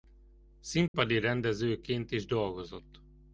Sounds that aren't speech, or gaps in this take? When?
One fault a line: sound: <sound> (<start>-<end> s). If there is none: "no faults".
sound: dropout (0.9-0.9 s)